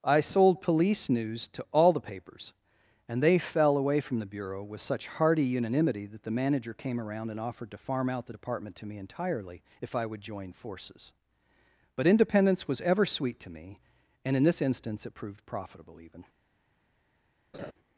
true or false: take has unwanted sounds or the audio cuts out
true